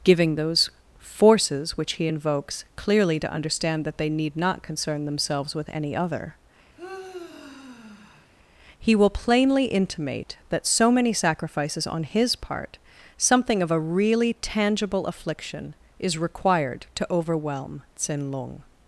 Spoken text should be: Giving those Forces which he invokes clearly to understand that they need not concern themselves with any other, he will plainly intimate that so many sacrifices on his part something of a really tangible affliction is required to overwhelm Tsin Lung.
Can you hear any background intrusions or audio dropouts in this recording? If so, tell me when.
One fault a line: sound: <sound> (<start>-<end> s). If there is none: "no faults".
sound: sigh (6.8-8.3 s)